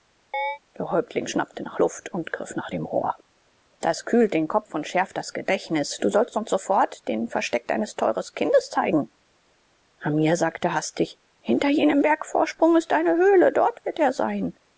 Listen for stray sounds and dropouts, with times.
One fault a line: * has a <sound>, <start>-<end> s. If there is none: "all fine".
* has a chirp, 0.3-0.6 s